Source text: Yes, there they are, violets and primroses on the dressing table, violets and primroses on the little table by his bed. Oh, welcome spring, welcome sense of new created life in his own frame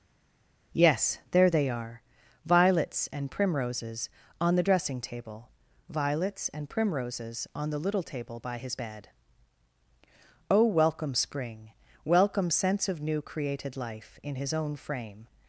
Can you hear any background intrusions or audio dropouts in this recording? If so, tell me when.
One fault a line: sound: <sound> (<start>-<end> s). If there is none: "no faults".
no faults